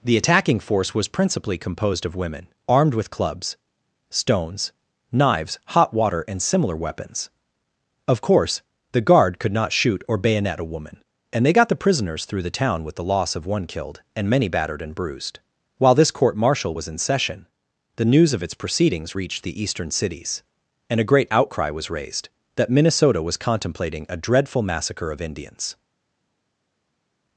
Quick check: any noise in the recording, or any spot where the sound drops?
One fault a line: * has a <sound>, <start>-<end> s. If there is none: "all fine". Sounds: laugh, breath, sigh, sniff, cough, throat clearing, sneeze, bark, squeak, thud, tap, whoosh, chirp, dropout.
all fine